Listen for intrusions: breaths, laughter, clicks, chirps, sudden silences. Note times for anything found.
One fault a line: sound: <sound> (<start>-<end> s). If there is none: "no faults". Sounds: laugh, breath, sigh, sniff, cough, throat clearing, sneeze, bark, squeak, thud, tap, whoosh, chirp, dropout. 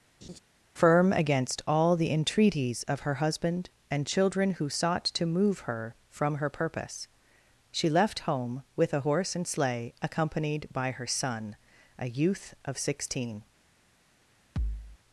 sound: laugh (0.2-0.4 s)
sound: thud (14.6-15.0 s)